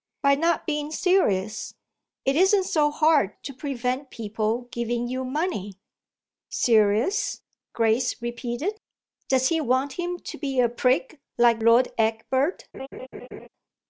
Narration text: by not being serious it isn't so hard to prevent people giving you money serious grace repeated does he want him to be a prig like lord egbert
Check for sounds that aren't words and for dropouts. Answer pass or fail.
fail